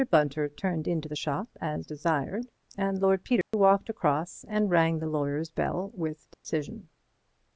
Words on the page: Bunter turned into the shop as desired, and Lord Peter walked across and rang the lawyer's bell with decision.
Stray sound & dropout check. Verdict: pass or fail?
fail